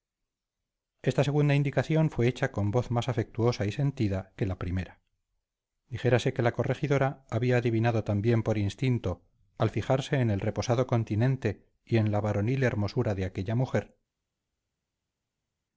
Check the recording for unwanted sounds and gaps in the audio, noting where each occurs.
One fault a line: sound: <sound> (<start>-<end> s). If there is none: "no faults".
no faults